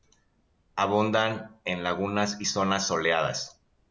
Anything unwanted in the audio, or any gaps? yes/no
no